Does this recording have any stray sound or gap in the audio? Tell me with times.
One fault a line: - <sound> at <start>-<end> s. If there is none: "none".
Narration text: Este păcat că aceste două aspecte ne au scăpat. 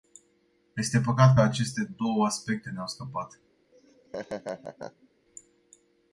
- laugh at 3.7-5.1 s